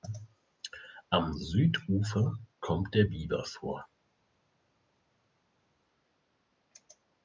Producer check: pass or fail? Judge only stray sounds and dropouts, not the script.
pass